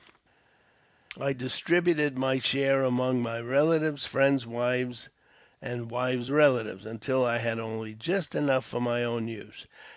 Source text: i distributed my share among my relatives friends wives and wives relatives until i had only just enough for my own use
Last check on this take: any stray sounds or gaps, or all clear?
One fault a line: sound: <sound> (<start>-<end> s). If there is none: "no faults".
no faults